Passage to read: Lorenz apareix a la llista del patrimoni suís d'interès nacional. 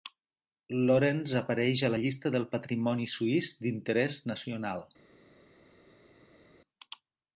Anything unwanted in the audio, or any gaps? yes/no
no